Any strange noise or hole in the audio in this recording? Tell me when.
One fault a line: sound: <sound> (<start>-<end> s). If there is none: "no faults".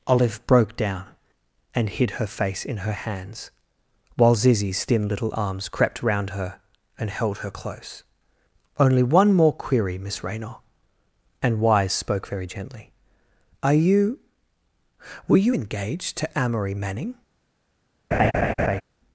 sound: laugh (18.1-18.8 s)